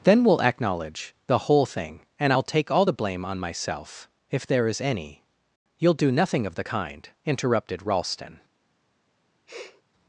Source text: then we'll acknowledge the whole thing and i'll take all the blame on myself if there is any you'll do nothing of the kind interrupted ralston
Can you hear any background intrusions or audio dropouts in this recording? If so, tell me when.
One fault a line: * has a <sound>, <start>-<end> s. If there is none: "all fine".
* has a sniff, 9.5-9.8 s